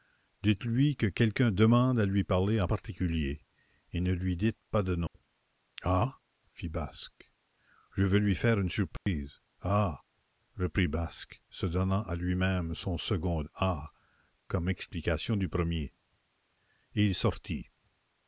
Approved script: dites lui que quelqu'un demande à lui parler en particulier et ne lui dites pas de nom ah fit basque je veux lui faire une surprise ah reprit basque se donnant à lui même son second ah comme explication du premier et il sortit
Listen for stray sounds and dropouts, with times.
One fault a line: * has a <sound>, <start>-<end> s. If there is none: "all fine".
* has a dropout, 5.1-5.1 s
* has a dropout, 9.0-9.1 s